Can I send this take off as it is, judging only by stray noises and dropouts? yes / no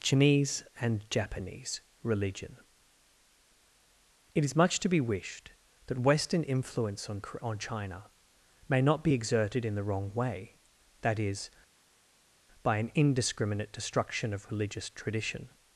yes